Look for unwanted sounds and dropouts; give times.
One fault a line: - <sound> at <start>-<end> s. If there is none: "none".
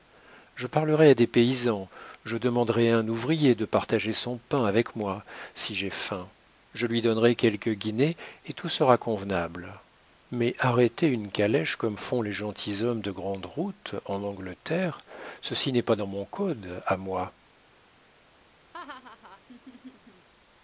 - laugh at 18.7-20.3 s